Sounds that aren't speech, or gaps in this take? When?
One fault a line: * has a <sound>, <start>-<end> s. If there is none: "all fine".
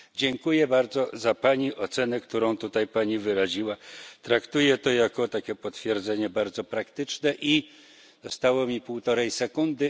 all fine